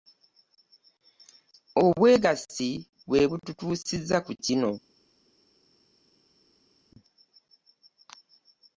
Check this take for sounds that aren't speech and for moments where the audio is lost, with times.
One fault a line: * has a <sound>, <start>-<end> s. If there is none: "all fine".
all fine